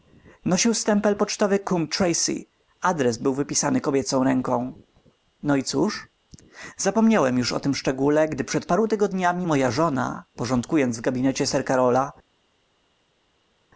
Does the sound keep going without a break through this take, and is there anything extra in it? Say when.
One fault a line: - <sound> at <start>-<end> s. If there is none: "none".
none